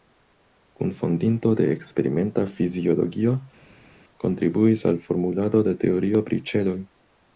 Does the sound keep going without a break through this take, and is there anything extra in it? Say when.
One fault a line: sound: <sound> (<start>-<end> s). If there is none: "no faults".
no faults